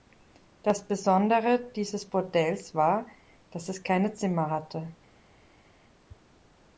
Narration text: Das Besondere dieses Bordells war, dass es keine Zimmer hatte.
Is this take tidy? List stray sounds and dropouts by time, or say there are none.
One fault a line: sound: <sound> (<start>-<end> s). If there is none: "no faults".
no faults